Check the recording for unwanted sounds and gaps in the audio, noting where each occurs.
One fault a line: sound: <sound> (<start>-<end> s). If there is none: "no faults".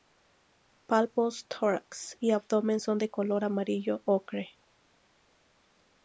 no faults